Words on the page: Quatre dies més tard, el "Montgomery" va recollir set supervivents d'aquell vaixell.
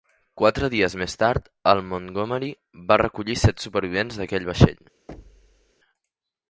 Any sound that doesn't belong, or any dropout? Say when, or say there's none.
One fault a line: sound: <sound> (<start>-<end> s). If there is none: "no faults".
sound: thud (5.1-5.7 s)